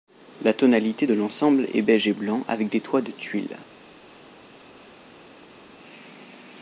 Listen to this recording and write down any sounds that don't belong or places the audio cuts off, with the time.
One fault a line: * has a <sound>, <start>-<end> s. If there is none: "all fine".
all fine